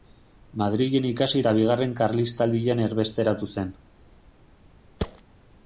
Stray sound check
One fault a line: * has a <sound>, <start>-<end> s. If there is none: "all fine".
* has a thud, 5.0-5.2 s